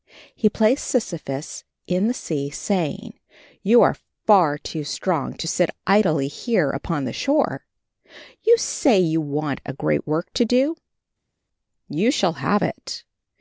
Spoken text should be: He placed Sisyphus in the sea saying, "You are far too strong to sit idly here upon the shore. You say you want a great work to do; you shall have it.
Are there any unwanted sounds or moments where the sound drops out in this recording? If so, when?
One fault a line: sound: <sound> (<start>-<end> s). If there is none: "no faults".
no faults